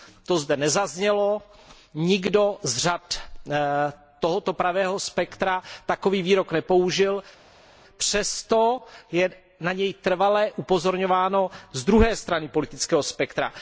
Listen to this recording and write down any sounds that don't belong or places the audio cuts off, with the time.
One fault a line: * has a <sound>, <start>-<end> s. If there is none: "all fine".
all fine